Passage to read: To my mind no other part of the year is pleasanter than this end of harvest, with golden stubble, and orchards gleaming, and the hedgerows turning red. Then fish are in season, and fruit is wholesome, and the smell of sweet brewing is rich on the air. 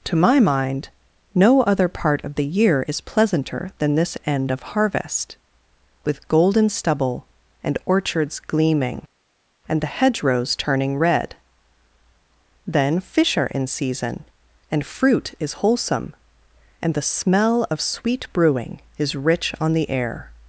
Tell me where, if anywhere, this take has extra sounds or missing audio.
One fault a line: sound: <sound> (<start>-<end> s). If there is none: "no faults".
no faults